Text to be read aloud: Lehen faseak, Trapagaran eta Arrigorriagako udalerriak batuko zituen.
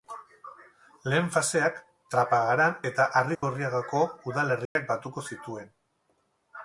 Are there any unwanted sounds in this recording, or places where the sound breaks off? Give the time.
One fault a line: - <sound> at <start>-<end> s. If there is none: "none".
- dropout at 3.3-3.4 s
- dropout at 4.7-4.8 s